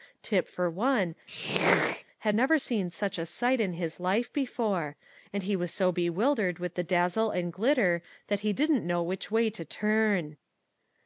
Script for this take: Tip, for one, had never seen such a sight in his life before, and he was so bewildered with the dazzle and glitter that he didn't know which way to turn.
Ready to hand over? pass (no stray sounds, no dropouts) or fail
fail